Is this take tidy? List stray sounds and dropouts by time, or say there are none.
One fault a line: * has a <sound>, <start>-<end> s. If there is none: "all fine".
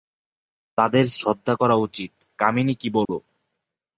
* has a dropout, 3.0-3.1 s